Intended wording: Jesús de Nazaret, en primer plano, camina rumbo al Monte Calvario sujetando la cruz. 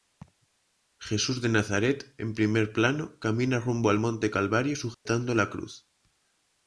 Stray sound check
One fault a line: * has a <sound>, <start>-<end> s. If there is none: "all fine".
* has a laugh, 0.2-0.5 s
* has a dropout, 4.9-5.1 s